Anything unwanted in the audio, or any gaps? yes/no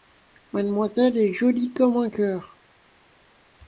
no